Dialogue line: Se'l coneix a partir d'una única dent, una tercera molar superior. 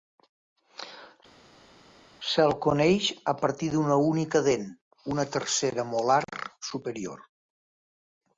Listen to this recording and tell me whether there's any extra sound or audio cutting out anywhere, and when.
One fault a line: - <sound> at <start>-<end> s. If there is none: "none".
none